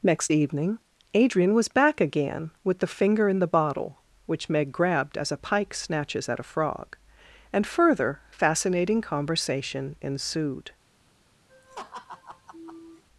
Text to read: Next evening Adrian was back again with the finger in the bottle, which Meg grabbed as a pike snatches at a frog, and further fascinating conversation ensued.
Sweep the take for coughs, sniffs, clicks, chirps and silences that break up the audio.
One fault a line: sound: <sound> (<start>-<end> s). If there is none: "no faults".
sound: laugh (11.5-13.0 s)